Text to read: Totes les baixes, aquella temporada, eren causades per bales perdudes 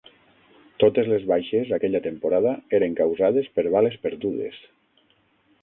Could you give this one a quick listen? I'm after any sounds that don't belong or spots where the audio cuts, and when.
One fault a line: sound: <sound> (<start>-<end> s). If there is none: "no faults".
no faults